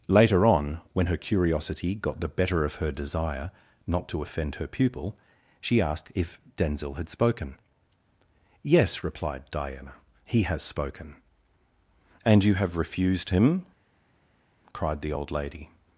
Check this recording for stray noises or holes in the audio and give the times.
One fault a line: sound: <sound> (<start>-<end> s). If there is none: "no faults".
no faults